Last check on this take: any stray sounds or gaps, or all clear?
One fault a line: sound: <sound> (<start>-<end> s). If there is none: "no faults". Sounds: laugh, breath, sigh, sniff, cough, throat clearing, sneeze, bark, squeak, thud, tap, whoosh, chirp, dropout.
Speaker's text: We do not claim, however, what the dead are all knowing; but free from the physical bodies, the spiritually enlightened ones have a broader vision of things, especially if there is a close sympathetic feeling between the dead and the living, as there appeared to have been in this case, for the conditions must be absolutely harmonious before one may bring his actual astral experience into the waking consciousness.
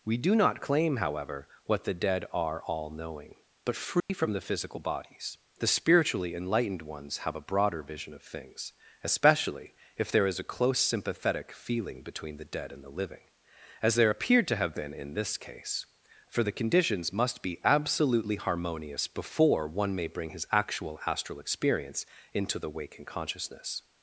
sound: dropout (4.0-4.1 s)